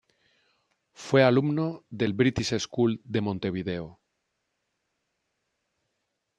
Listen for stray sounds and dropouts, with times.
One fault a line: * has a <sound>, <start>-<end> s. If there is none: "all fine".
all fine